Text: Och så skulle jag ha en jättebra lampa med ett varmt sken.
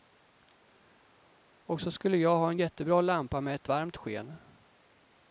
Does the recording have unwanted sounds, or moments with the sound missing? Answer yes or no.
no